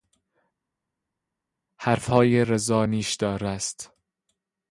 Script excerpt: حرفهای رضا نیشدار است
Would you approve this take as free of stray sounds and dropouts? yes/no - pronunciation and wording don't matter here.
yes